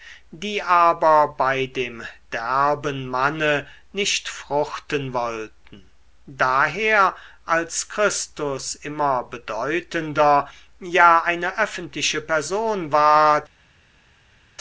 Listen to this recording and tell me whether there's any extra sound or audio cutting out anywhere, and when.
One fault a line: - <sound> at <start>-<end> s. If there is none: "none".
none